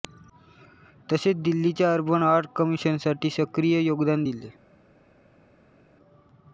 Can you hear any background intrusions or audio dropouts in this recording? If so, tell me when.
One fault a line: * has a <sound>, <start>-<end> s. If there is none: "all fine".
all fine